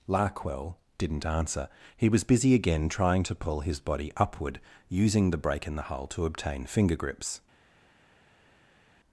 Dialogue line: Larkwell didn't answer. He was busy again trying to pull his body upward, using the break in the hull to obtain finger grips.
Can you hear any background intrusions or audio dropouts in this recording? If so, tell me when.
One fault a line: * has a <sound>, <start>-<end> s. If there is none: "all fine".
all fine